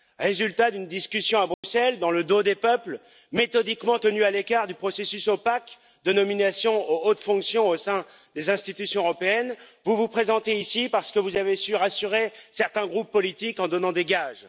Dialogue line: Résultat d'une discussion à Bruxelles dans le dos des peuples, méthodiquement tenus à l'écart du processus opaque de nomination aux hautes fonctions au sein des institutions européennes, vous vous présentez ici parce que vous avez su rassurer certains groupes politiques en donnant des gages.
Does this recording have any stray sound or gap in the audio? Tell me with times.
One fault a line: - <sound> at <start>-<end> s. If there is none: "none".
- dropout at 1.5-1.6 s